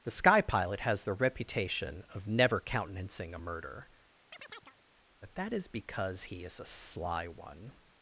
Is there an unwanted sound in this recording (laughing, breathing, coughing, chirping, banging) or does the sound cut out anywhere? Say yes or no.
yes